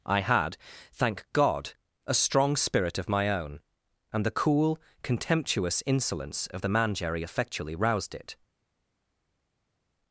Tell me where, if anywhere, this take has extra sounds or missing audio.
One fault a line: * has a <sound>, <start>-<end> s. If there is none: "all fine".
all fine